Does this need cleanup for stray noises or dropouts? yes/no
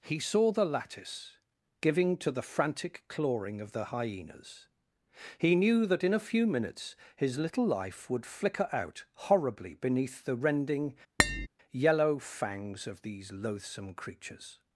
yes